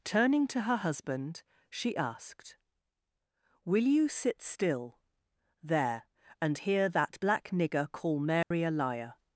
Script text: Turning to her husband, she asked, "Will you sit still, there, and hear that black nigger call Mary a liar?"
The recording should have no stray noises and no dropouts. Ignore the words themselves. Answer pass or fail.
fail